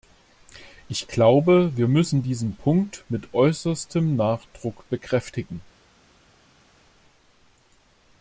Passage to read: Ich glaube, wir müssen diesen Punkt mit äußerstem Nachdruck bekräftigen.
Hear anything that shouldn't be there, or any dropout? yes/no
no